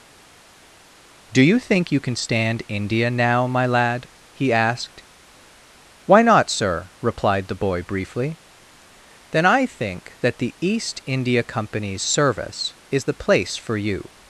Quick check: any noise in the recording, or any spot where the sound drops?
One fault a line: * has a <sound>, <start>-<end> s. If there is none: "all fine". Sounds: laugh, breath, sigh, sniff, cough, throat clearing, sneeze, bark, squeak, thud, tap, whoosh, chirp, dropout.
all fine